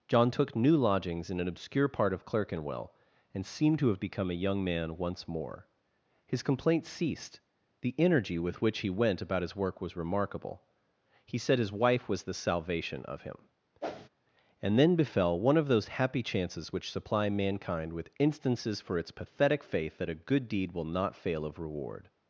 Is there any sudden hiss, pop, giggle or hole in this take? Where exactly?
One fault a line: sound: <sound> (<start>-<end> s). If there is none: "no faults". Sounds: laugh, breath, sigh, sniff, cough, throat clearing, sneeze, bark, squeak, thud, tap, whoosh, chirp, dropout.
sound: whoosh (13.8-14.1 s)